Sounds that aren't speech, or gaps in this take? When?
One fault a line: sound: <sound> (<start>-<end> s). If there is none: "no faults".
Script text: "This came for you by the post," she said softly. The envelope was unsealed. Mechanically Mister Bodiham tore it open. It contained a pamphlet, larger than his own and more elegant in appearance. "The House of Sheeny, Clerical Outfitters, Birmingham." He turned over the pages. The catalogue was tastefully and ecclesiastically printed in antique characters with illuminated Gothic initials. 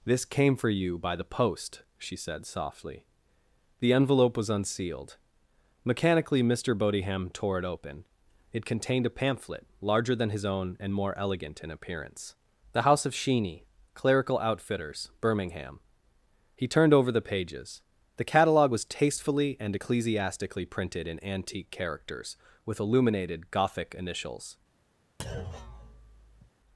sound: thud (25.2-26.5 s)